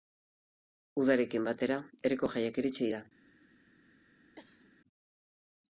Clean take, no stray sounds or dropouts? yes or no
no